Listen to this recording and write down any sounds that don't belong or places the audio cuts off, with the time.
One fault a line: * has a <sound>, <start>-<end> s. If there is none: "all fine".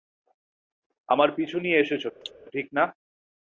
* has a cough, 2.2-2.3 s